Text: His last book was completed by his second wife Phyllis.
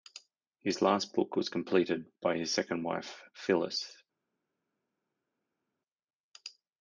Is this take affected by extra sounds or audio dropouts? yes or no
no